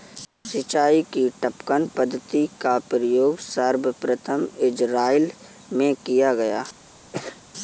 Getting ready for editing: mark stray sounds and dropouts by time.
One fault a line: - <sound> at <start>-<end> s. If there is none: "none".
- sneeze at 7.1-7.4 s